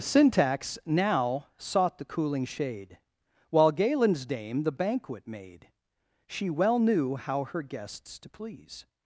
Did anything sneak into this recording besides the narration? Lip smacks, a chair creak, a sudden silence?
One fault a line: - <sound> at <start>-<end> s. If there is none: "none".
none